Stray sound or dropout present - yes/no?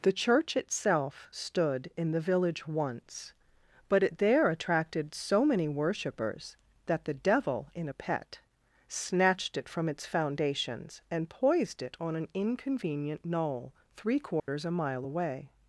yes